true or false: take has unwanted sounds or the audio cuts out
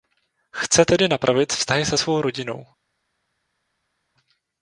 false